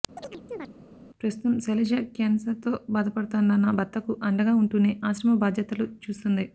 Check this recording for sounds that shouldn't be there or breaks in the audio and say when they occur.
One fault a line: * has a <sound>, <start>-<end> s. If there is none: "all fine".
* has a chirp, 0.2-0.7 s